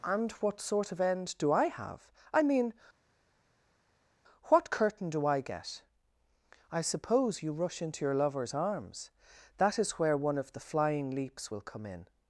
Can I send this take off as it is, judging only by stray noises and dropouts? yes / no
yes